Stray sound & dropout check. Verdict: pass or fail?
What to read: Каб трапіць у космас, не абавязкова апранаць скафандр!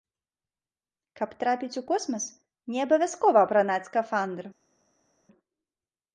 pass